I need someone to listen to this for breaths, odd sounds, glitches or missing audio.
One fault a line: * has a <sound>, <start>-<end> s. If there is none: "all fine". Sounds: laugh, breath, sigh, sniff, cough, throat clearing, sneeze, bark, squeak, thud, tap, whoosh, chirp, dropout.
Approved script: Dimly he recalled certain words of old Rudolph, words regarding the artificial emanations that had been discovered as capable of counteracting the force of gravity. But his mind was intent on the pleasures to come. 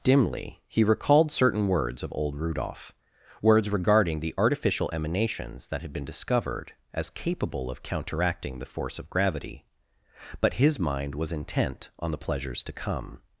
all fine